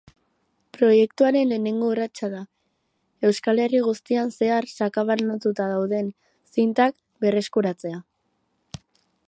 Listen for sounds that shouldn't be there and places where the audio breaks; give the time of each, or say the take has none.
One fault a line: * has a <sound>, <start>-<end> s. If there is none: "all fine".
all fine